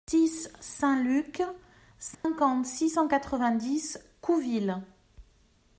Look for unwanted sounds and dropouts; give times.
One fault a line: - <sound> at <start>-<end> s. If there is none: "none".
- dropout at 2.1-2.2 s